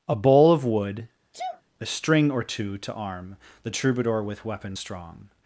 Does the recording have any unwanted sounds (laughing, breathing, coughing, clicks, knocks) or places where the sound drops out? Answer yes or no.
yes